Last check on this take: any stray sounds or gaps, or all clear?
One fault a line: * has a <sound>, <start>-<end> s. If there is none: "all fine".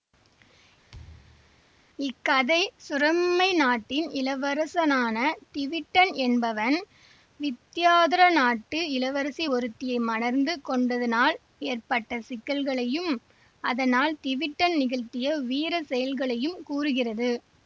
* has a thud, 0.9-1.6 s